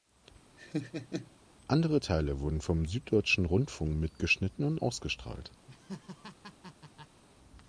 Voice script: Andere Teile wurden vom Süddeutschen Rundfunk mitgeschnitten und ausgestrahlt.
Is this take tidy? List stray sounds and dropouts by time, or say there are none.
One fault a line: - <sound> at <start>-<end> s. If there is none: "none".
- laugh at 0.6-1.3 s
- laugh at 5.7-7.2 s